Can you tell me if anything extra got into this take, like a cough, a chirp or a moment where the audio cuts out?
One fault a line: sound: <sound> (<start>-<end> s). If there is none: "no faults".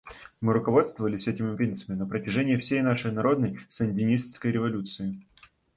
no faults